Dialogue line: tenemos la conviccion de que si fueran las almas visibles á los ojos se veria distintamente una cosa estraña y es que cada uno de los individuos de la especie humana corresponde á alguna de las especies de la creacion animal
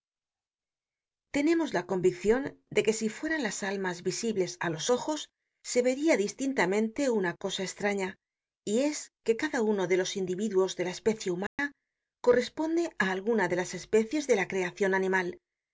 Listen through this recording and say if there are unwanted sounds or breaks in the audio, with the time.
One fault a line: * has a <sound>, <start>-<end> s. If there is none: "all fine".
* has a dropout, 11.5-11.6 s